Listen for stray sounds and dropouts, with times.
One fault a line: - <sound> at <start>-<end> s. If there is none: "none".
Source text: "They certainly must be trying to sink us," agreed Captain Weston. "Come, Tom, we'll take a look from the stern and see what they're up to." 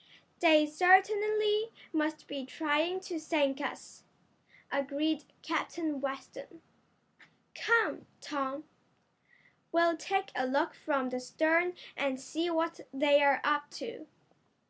none